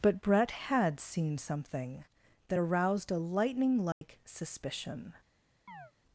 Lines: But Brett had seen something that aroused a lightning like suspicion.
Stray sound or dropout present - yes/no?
yes